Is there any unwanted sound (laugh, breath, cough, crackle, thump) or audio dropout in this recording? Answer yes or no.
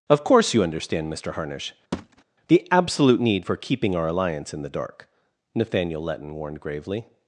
yes